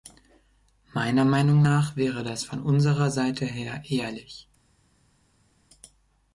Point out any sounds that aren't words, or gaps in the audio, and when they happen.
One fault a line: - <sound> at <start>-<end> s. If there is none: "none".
none